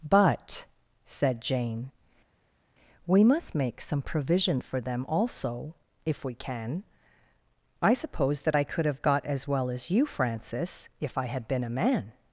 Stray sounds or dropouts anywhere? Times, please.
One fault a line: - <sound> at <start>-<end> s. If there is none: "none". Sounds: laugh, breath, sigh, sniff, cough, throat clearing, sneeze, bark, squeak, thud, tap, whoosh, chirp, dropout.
none